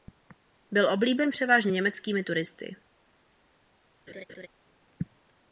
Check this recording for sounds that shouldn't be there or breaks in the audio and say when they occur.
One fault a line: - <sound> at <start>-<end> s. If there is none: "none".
- laugh at 4.1-4.5 s